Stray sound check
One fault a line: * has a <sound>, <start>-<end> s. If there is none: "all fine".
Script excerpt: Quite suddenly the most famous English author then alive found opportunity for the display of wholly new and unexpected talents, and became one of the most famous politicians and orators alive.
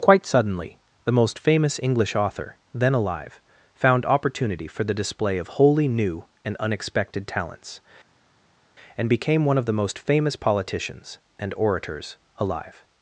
all fine